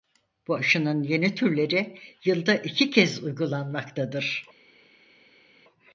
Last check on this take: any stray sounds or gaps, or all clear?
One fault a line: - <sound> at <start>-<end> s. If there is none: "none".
none